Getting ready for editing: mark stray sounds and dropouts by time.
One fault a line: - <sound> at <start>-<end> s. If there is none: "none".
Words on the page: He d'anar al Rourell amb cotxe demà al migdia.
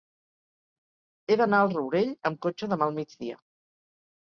none